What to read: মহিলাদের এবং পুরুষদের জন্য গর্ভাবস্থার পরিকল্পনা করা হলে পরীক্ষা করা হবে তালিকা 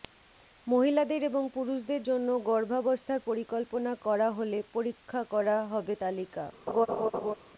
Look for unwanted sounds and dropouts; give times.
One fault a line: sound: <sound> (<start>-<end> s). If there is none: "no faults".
sound: laugh (6.7-7.3 s)